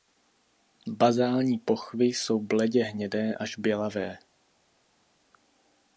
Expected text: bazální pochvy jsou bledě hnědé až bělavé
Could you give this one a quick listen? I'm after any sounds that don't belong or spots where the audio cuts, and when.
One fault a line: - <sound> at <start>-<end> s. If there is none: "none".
none